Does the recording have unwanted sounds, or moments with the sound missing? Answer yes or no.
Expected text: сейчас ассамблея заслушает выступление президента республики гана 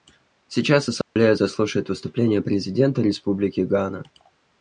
yes